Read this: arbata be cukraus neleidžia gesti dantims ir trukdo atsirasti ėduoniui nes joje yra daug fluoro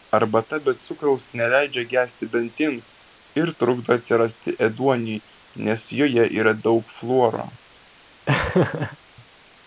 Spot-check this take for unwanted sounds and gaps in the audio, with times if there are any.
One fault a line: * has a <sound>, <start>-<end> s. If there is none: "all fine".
* has a laugh, 8.3-9.0 s